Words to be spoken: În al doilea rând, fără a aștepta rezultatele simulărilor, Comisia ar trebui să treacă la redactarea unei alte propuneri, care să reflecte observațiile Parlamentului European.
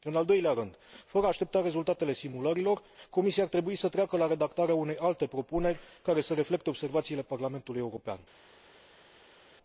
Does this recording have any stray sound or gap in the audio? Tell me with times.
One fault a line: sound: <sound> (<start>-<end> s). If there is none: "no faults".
no faults